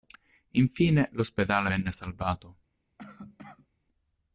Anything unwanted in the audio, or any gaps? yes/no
yes